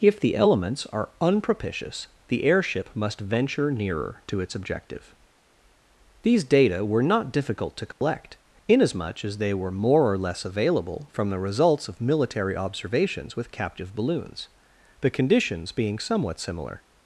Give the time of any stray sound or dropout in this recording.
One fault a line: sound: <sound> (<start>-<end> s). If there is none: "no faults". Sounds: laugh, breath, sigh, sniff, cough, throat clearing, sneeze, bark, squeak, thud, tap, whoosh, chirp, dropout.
sound: dropout (7.9-8.0 s)